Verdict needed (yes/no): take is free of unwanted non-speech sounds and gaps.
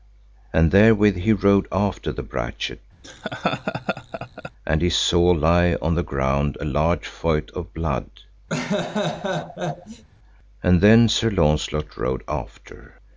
no